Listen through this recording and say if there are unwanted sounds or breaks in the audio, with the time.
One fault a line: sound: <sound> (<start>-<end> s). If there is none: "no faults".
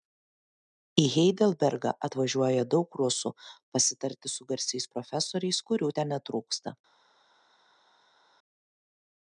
no faults